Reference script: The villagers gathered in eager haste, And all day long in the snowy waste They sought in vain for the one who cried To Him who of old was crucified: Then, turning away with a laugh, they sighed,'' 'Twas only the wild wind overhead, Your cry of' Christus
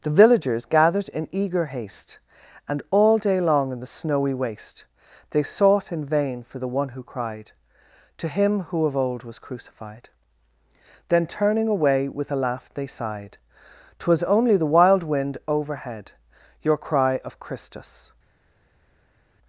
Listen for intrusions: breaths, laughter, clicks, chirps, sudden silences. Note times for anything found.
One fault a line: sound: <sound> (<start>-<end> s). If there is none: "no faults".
no faults